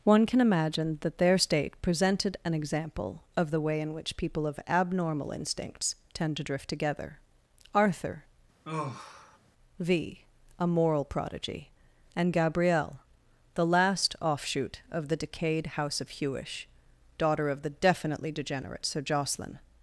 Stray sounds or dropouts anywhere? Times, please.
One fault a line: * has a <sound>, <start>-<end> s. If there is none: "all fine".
* has a sigh, 8.6-9.4 s